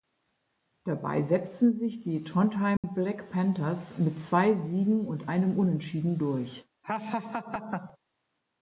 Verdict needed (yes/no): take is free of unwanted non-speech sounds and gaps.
no